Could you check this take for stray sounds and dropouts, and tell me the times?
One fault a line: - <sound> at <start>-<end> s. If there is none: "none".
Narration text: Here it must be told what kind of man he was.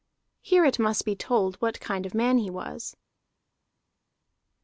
none